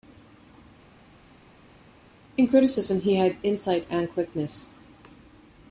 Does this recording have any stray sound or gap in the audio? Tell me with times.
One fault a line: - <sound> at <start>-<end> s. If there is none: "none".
none